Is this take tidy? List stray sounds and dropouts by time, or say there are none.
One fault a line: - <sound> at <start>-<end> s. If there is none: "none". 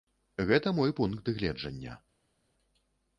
none